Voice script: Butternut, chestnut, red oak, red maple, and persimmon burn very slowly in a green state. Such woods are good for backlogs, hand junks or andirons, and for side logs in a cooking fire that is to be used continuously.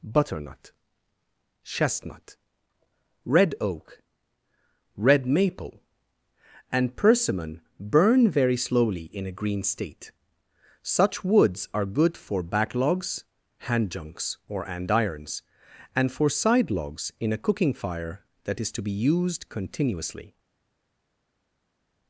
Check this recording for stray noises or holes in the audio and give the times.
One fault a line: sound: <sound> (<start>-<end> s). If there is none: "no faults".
no faults